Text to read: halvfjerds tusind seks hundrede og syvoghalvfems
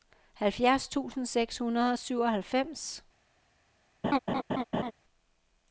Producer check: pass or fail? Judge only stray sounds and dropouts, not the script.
fail